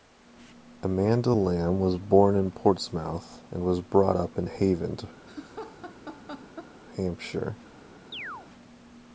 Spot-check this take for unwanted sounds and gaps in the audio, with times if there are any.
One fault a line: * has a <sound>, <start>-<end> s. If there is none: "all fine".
* has a laugh, 5.3-6.7 s
* has a chirp, 8.1-8.5 s